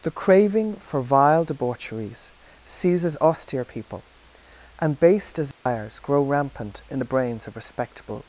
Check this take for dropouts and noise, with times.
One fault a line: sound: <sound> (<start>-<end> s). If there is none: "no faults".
sound: dropout (5.5-5.7 s)